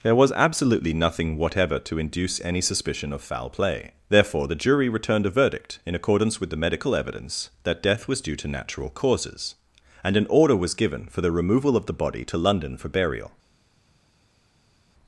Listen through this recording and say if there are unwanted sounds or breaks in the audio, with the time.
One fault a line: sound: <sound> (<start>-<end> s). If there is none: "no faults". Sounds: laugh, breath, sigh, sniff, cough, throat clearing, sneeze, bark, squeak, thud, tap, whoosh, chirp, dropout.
no faults